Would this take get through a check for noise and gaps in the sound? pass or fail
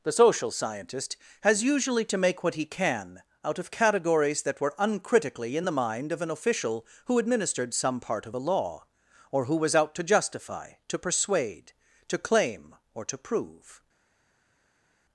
pass